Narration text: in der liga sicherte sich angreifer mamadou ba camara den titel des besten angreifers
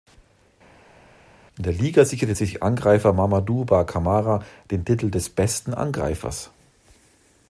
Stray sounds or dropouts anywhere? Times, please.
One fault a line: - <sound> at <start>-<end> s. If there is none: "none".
none